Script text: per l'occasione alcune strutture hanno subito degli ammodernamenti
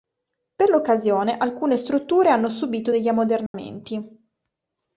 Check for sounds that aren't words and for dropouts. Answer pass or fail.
fail